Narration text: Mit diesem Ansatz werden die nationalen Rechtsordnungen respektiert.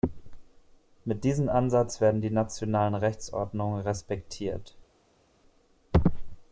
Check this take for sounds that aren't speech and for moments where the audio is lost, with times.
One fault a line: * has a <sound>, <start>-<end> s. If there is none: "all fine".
all fine